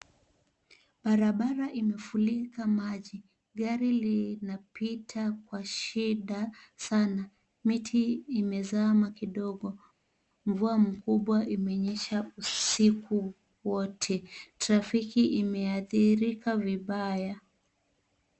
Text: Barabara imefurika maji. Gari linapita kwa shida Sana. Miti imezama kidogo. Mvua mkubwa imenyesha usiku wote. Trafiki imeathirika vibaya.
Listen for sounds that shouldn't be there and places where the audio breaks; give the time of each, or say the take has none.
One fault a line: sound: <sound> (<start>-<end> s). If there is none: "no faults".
no faults